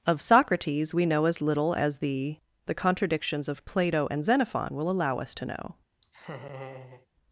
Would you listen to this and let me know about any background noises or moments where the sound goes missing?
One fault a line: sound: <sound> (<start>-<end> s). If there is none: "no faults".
sound: laugh (6.0-7.1 s)